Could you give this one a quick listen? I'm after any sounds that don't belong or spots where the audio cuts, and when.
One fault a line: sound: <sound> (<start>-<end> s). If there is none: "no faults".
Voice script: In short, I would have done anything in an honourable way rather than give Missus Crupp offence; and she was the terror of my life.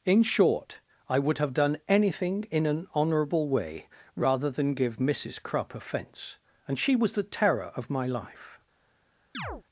sound: chirp (9.3-9.6 s)